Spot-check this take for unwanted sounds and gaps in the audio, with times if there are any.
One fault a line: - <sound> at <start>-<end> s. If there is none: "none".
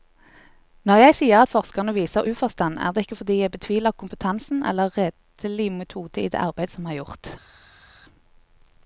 none